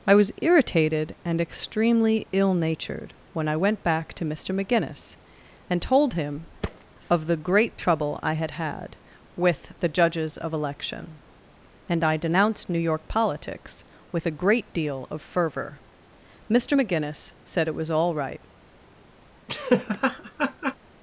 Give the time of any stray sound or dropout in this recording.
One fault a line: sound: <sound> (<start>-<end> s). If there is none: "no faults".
sound: thud (6.6-6.8 s)
sound: laugh (19.5-20.8 s)